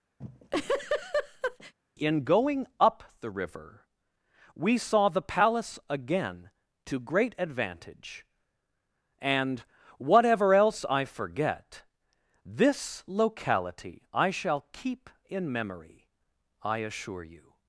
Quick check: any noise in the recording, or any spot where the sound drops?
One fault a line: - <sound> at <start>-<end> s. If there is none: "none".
- laugh at 0.2-1.7 s